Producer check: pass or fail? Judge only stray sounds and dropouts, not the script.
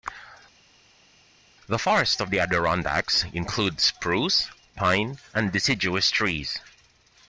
pass